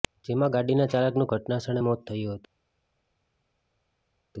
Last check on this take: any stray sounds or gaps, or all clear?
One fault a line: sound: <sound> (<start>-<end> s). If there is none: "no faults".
no faults